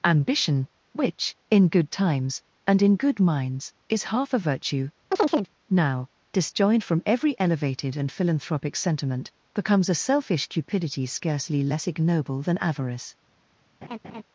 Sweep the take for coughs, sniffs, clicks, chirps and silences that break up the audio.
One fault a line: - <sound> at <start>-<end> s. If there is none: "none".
- chirp at 5.1-5.5 s
- laugh at 13.8-14.2 s